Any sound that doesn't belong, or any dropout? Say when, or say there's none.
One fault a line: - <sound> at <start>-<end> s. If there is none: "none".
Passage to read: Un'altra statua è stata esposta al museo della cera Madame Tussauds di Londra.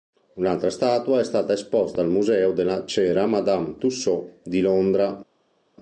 none